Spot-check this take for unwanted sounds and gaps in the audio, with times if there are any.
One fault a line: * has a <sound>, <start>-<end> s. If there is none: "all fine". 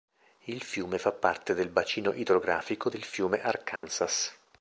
* has a dropout, 3.8-3.8 s